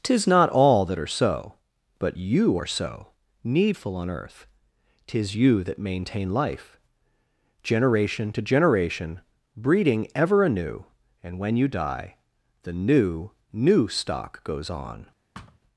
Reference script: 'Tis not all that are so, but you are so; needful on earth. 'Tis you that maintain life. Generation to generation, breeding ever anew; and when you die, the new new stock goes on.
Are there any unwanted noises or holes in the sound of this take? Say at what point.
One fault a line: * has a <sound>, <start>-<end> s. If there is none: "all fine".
* has a thud, 15.3-15.6 s